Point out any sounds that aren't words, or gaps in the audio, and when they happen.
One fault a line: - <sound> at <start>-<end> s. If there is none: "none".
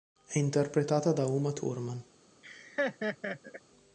- laugh at 2.4-3.6 s